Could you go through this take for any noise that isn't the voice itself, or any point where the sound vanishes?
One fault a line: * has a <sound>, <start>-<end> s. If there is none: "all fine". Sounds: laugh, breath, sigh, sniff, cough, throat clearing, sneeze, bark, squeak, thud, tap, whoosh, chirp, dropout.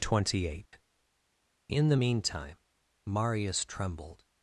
* has a dropout, 0.7-0.7 s